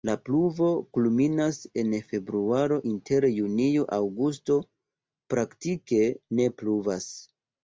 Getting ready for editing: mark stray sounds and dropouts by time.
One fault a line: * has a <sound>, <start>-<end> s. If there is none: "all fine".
all fine